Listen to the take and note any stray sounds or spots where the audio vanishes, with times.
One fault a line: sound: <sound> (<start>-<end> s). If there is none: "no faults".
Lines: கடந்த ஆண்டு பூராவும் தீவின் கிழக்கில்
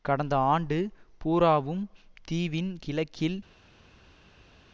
no faults